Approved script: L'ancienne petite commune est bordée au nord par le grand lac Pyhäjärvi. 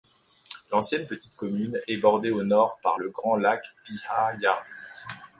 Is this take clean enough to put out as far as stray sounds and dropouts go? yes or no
yes